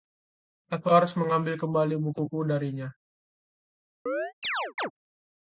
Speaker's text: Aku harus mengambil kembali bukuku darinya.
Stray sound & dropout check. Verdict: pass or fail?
fail